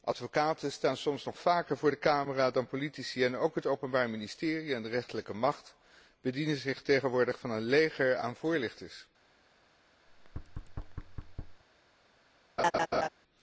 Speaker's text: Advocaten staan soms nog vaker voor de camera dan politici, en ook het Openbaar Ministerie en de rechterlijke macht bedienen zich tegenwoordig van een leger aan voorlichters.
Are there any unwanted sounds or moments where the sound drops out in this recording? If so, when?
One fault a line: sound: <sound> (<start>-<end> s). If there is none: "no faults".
sound: thud (10.1-11.6 s)
sound: laugh (12.6-13.1 s)